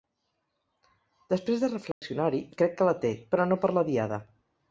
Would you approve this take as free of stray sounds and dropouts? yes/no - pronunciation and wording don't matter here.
no